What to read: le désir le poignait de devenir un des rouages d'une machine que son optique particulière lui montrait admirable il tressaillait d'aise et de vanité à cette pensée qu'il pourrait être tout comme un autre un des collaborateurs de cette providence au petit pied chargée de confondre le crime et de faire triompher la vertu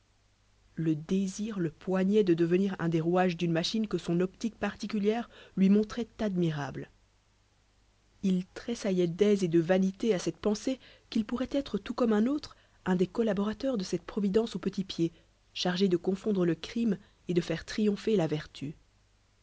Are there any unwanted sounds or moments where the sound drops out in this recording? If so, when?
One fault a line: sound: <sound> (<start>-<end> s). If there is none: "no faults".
no faults